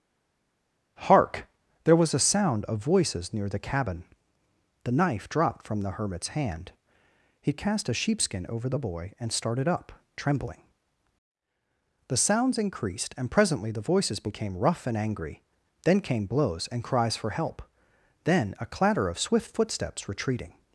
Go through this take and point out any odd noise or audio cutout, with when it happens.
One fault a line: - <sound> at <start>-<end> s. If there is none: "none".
none